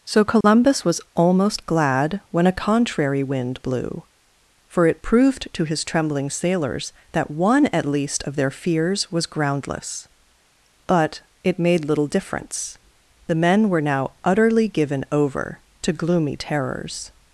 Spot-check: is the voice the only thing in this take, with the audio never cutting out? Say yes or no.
no